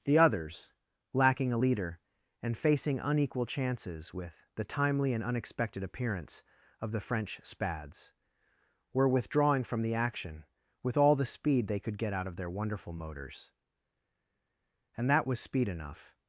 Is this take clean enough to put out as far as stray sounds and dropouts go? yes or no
yes